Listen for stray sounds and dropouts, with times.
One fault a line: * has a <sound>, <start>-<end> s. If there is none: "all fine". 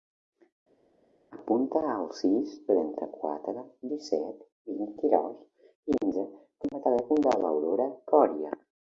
all fine